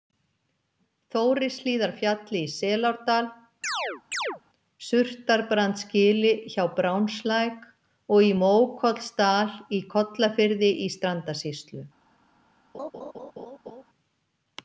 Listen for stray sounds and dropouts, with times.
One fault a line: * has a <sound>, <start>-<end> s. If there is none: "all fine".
* has a chirp, 3.6-4.4 s
* has a laugh, 12.7-13.8 s